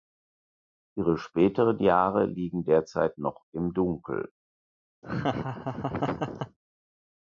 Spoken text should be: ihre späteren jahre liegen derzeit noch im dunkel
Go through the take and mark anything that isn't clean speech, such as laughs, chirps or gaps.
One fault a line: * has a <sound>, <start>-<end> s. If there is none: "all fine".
* has a laugh, 5.0-6.6 s